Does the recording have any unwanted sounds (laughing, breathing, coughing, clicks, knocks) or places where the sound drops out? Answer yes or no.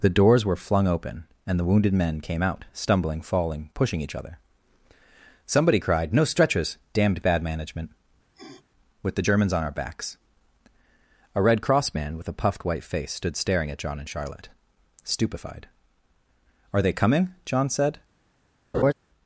yes